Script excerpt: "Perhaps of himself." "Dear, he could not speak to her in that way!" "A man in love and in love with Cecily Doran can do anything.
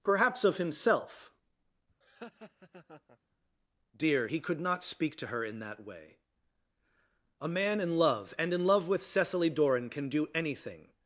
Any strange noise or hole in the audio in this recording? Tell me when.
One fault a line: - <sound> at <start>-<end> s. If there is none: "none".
- laugh at 2.0-3.2 s